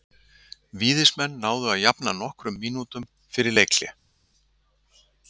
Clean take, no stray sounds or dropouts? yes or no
yes